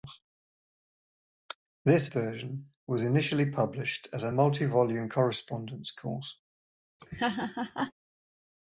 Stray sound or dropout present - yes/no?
yes